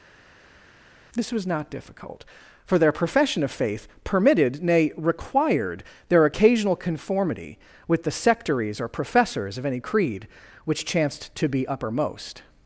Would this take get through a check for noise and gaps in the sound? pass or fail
pass